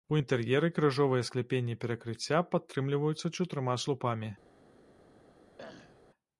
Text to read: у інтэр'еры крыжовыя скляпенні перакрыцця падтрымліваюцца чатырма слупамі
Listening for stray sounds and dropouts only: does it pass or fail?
fail